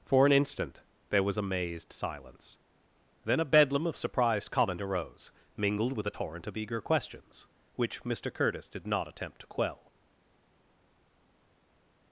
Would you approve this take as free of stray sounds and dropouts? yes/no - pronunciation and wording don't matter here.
yes